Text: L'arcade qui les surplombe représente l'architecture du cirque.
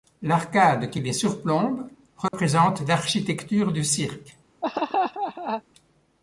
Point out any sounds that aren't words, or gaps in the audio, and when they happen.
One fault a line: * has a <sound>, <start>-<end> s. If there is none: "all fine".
* has a dropout, 2.3-2.3 s
* has a laugh, 4.6-5.6 s